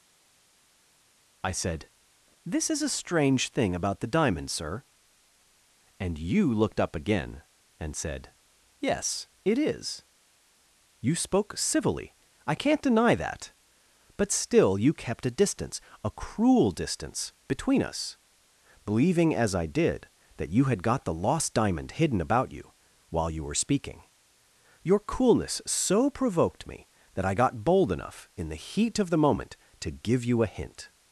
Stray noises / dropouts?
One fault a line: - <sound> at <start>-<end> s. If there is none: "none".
none